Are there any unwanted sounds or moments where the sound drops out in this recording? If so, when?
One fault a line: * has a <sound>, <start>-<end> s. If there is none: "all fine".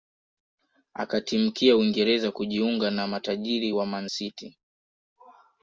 all fine